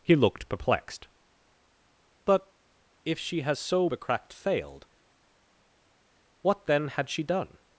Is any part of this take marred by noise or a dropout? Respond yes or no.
no